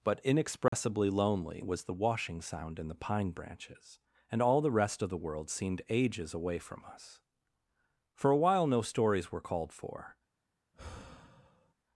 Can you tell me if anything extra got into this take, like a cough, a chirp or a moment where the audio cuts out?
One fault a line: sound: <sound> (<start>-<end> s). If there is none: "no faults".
sound: dropout (0.7-0.7 s)
sound: sigh (10.7-11.7 s)